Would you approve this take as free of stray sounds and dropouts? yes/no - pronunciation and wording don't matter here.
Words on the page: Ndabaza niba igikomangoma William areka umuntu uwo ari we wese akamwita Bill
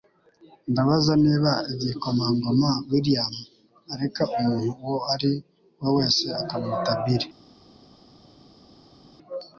yes